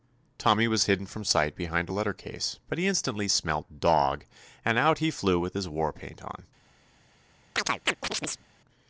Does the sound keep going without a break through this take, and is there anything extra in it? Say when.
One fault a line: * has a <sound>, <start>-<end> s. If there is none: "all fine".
* has a chirp, 7.6-8.5 s